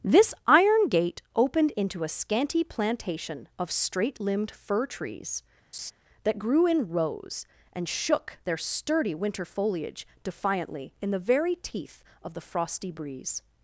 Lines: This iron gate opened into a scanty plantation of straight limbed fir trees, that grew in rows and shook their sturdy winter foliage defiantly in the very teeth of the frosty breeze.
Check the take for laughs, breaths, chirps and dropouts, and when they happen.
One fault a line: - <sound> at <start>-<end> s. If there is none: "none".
- laugh at 5.7-5.9 s